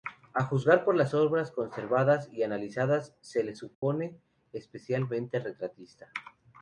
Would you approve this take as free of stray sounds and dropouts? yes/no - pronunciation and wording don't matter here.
no